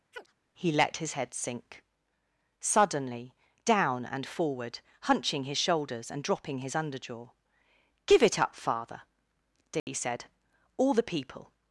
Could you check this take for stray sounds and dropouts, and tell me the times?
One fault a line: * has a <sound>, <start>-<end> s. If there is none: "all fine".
* has a chirp, 0.1-0.3 s
* has a dropout, 9.8-9.9 s